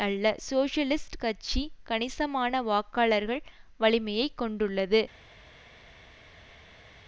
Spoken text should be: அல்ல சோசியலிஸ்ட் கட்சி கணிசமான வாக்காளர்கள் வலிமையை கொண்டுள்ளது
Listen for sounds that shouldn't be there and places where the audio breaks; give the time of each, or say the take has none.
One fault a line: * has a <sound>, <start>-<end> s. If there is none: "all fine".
all fine